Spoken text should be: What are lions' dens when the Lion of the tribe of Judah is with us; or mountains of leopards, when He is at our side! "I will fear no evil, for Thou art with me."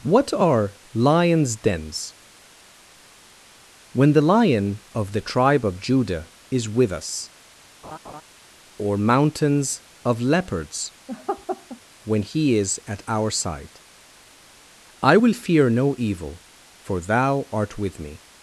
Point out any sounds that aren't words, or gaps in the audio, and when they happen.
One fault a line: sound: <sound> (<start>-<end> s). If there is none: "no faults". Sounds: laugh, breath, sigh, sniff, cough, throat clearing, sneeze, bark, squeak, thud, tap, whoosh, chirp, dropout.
sound: laugh (7.8-8.2 s)
sound: laugh (11.1-11.8 s)